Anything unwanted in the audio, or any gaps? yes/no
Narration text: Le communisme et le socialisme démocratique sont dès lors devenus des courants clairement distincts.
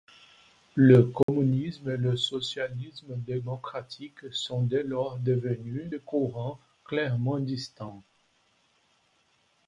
yes